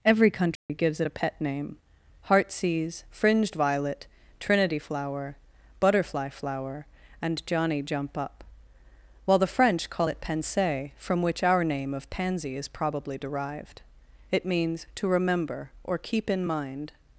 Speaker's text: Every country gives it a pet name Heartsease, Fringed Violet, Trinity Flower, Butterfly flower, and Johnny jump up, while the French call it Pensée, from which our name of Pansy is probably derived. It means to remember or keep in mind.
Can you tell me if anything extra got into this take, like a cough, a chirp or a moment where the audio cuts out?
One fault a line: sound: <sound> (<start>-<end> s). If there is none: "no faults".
sound: dropout (0.6-0.7 s)